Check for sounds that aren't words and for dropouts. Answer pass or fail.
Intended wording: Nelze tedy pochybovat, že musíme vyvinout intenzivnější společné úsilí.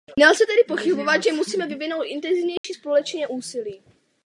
fail